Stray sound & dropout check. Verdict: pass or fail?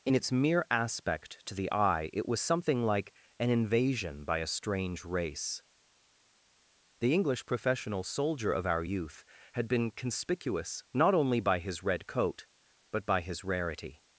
pass